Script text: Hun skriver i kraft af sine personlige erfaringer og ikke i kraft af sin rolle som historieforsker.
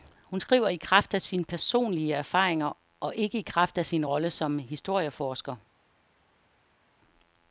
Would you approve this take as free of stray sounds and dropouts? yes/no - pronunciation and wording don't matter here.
yes